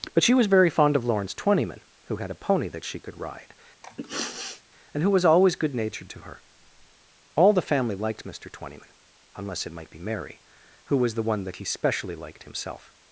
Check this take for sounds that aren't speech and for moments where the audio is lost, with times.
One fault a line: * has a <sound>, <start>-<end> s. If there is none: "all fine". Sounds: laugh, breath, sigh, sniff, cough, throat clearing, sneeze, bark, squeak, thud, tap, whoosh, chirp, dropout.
* has a sniff, 3.8-4.6 s